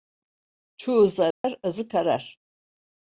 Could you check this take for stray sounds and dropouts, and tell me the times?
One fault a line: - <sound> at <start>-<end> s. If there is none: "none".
- dropout at 1.3-1.4 s